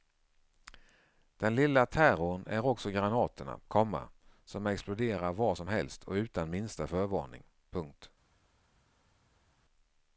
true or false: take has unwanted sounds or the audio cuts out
false